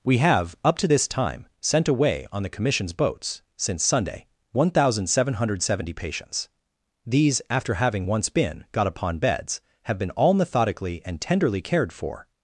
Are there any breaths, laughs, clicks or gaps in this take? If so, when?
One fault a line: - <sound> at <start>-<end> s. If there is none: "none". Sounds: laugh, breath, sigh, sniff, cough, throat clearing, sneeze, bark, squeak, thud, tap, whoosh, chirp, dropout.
none